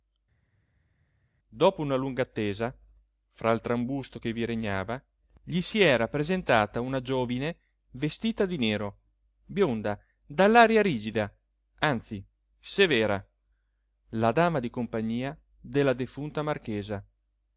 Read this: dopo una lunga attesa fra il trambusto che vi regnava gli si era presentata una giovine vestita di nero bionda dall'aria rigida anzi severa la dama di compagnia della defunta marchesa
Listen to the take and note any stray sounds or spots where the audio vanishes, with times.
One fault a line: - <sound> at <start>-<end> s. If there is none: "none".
none